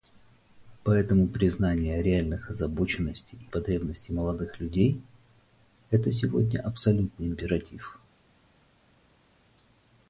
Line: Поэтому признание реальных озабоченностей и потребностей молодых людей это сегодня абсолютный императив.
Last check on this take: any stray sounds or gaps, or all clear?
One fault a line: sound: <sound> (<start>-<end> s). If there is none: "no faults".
no faults